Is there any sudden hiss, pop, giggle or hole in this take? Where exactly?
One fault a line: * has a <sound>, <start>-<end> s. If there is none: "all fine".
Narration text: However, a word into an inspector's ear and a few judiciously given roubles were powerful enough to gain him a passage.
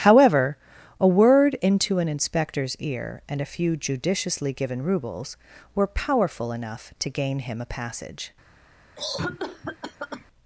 * has a cough, 9.0-10.3 s